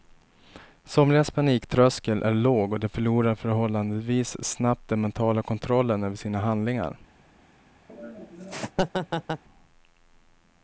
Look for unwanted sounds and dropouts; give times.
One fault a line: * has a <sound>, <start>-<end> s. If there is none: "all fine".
* has a laugh, 7.9-9.4 s